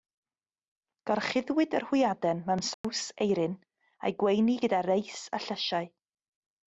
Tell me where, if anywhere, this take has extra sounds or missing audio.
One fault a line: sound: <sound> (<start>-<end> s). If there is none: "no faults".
sound: dropout (2.7-2.8 s)